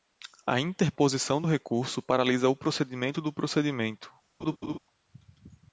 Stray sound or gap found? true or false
true